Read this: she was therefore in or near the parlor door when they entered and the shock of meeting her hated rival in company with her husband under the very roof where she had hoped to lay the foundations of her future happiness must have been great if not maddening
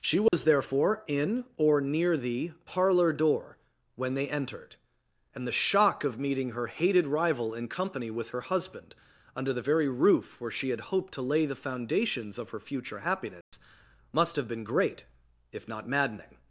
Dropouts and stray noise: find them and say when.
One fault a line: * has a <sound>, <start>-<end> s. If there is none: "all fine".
* has a dropout, 0.3-0.3 s
* has a dropout, 13.4-13.5 s